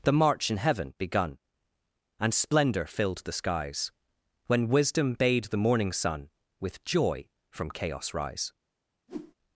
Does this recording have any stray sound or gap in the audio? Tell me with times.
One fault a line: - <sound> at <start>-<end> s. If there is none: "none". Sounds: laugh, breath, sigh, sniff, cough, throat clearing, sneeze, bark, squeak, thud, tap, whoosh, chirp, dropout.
- whoosh at 9.1-9.3 s